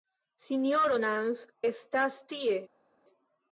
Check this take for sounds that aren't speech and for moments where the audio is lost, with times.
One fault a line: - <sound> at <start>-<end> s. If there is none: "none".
none